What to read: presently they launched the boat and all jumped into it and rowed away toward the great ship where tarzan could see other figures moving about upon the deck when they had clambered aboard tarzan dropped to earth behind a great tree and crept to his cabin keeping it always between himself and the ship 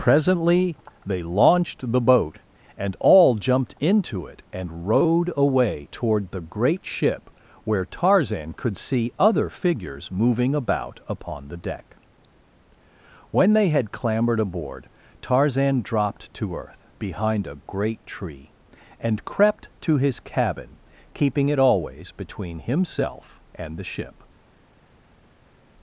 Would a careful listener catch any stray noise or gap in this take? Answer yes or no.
no